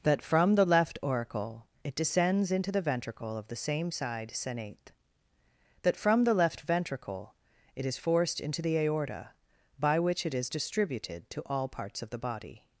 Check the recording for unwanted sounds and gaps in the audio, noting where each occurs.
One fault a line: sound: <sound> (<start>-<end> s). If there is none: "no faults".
no faults